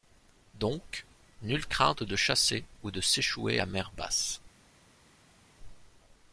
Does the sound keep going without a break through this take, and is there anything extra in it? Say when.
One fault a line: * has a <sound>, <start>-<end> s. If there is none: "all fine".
all fine